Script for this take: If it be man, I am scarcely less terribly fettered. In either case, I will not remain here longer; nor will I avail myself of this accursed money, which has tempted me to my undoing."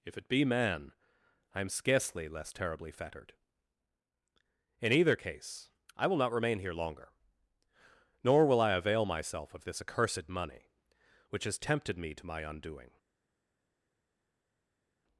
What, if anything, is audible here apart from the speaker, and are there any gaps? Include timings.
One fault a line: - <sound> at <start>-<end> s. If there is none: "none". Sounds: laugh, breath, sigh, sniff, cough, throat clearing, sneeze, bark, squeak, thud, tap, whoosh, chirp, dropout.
none